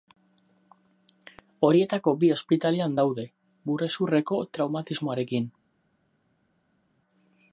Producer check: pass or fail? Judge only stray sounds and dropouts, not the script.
pass